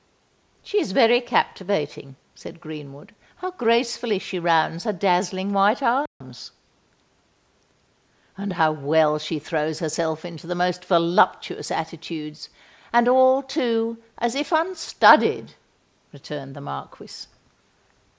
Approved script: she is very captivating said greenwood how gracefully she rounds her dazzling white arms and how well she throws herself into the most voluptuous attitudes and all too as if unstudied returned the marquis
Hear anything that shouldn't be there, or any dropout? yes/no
yes